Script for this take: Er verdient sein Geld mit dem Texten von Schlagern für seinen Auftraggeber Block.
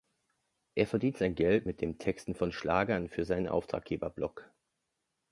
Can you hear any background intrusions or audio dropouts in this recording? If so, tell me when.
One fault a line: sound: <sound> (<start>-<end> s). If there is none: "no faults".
no faults